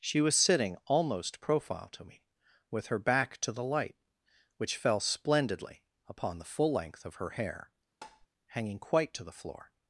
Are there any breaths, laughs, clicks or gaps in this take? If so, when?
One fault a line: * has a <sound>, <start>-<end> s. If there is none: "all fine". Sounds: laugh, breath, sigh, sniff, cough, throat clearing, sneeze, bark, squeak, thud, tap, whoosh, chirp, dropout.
* has a tap, 8.0-8.3 s